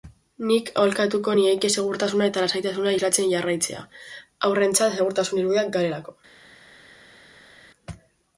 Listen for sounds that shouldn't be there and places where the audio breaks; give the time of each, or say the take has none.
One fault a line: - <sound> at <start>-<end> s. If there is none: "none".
none